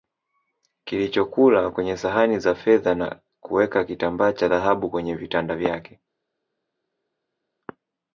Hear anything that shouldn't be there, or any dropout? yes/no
no